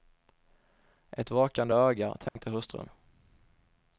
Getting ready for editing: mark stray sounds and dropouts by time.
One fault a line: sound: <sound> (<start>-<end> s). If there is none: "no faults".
sound: dropout (2.3-2.4 s)